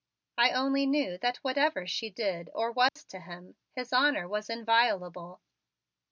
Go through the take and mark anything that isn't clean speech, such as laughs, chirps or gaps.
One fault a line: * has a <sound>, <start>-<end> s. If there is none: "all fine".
* has a dropout, 2.9-3.0 s